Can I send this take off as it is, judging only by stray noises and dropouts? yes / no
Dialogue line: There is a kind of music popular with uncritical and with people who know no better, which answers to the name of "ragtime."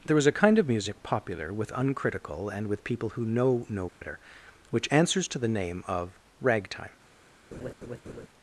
no